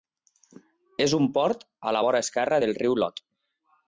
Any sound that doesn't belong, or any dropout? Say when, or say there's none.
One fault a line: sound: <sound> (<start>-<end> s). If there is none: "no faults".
no faults